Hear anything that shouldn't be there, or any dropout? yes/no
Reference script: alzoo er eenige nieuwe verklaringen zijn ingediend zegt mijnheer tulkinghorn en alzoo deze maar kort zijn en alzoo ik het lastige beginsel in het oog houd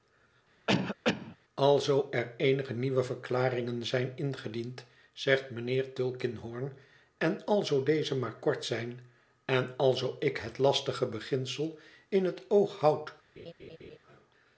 yes